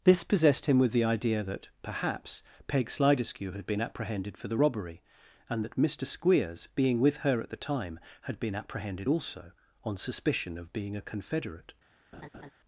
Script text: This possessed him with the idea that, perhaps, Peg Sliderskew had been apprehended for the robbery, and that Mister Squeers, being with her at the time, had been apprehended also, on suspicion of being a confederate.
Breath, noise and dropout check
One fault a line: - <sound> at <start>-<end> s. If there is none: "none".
- laugh at 12.1-12.5 s